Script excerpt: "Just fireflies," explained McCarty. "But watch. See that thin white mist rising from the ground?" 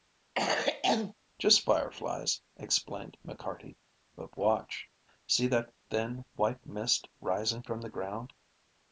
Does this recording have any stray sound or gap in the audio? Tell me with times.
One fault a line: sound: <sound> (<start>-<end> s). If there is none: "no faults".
sound: cough (0.3-1.1 s)